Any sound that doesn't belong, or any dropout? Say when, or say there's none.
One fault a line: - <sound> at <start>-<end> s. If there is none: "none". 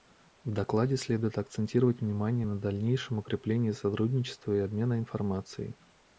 none